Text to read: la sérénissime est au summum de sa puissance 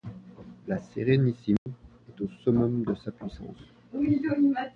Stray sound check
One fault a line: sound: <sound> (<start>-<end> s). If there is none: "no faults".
sound: dropout (1.6-1.7 s)